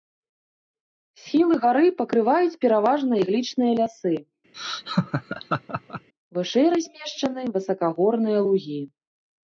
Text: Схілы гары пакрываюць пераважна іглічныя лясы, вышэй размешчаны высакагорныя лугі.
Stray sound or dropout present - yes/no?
yes